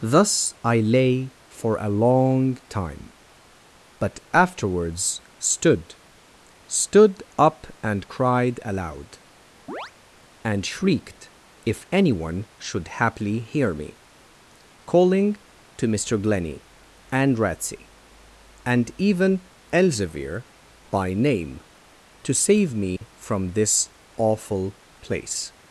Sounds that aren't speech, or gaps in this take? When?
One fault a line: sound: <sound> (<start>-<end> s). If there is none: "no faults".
sound: chirp (9.7-9.9 s)
sound: dropout (23.0-23.0 s)